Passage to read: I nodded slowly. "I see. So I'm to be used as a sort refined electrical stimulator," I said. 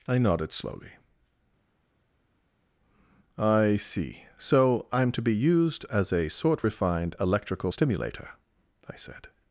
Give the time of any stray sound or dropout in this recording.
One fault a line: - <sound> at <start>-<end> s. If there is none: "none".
none